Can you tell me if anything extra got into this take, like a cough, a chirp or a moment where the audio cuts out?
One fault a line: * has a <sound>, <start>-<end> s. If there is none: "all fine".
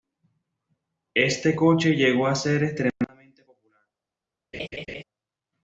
* has a laugh, 4.5-5.0 s